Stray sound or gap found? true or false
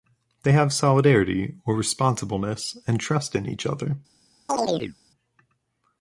true